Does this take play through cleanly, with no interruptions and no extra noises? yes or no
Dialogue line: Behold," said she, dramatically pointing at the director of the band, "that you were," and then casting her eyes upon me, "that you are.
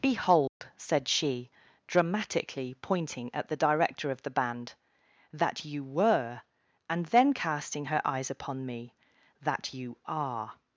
no